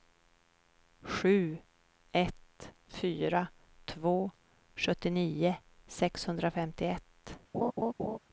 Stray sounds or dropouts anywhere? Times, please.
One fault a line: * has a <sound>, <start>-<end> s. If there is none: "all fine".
* has a laugh, 7.5-8.2 s